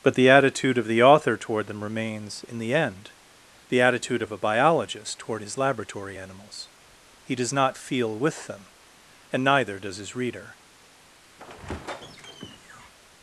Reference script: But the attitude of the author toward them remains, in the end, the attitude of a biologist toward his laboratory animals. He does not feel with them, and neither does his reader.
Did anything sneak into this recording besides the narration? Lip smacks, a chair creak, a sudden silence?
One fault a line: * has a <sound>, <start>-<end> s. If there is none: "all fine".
* has a squeak, 11.4-12.9 s